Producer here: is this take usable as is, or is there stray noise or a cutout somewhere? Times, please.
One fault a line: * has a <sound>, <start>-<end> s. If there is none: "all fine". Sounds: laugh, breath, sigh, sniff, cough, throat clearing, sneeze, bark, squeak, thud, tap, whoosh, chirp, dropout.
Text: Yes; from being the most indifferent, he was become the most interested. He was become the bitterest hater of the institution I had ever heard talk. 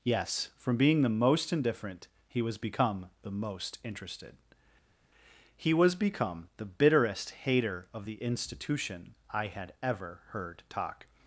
all fine